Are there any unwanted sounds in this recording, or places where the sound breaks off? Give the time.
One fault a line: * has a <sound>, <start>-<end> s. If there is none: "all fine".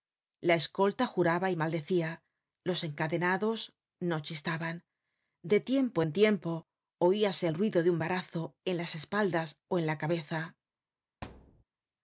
* has a thud, 11.2-11.6 s